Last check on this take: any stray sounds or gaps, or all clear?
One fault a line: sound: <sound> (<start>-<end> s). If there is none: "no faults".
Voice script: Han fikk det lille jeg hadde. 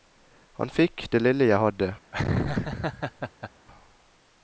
sound: laugh (2.1-3.5 s)